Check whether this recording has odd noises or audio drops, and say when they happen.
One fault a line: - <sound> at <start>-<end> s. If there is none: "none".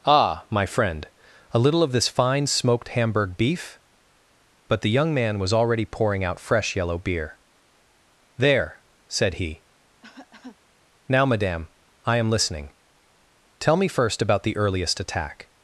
- cough at 10.0-10.6 s